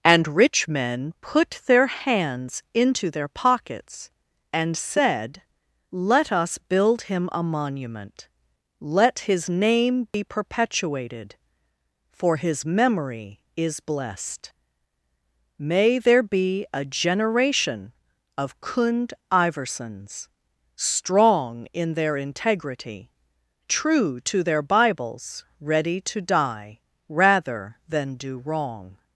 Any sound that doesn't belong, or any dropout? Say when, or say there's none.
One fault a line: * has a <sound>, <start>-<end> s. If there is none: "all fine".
* has a dropout, 10.1-10.1 s